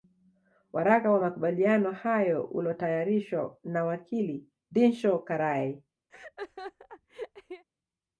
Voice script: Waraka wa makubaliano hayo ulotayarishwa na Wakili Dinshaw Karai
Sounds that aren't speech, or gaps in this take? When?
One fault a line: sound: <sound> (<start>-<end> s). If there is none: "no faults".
sound: laugh (6.1-7.6 s)